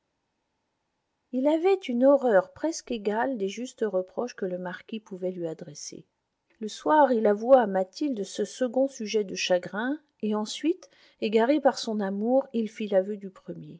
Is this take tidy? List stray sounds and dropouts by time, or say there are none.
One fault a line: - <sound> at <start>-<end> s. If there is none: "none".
none